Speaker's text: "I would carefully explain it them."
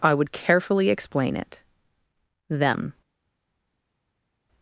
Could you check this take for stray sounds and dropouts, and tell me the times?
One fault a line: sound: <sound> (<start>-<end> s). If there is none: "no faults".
no faults